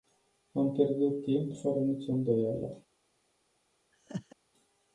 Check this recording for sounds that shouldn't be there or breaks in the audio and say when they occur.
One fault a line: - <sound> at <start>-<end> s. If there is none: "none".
- laugh at 3.9-4.4 s